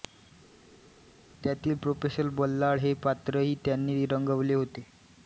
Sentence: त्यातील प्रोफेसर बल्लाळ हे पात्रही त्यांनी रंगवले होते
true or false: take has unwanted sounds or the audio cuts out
false